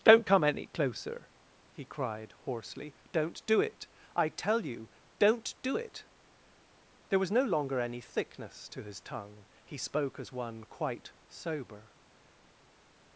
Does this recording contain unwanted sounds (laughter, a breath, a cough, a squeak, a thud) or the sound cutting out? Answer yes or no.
no